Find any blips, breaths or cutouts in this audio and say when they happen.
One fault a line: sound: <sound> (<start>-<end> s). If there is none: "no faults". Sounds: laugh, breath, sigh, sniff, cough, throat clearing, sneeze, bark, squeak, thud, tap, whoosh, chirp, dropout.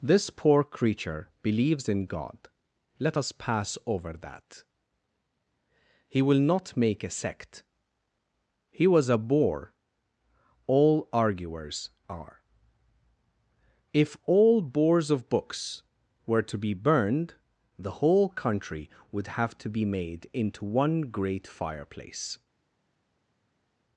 no faults